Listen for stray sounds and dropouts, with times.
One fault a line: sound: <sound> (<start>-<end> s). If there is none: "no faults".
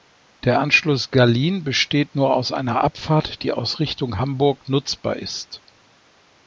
no faults